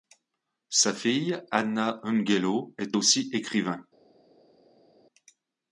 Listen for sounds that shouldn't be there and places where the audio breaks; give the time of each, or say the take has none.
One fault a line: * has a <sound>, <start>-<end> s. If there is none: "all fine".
all fine